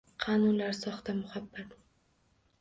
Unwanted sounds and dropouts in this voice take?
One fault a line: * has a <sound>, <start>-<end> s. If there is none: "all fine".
all fine